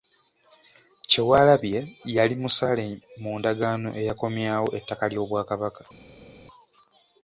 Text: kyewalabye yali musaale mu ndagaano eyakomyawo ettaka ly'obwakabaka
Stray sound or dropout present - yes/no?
no